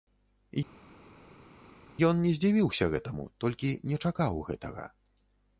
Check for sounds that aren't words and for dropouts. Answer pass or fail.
pass